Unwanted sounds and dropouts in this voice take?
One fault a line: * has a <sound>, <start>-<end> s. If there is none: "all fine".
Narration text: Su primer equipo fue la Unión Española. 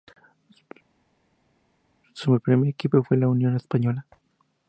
all fine